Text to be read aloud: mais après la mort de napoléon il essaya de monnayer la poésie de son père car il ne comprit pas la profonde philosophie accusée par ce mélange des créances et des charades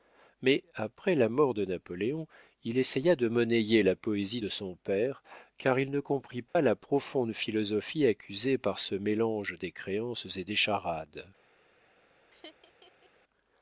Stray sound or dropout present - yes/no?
yes